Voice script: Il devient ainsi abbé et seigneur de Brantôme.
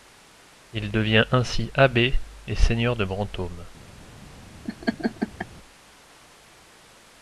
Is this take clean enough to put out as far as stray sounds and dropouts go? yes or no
no